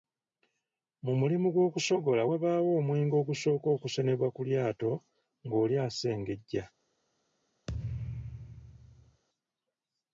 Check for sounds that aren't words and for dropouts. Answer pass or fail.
fail